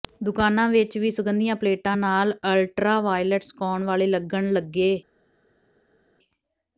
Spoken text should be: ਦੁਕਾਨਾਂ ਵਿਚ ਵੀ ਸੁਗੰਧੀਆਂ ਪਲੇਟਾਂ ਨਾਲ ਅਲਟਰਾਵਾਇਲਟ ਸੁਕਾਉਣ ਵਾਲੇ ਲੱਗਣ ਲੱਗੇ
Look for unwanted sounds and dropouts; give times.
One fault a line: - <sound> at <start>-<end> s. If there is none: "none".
none